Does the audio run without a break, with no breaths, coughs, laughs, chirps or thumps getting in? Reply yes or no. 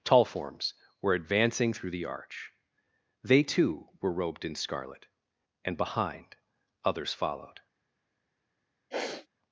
no